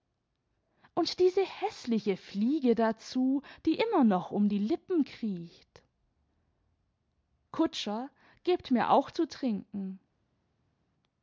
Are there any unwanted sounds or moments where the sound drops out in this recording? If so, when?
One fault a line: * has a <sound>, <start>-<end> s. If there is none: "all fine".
all fine